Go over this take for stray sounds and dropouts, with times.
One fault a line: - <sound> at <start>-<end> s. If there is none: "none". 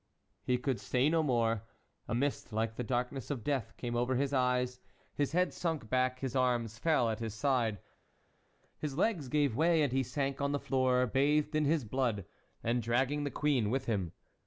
none